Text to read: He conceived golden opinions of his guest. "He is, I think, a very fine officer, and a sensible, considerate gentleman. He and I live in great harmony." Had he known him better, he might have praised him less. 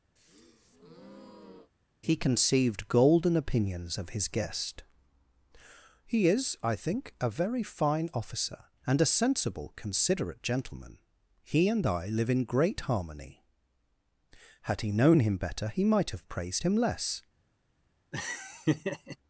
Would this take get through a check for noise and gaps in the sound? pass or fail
fail